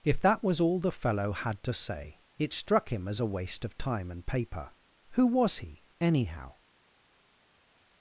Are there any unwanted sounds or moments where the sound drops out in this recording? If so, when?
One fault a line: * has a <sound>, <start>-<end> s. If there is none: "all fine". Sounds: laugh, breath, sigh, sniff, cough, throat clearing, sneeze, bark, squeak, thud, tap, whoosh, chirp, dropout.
all fine